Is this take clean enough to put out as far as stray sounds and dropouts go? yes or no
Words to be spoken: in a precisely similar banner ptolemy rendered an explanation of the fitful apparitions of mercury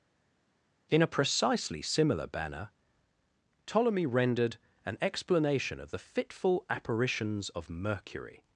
yes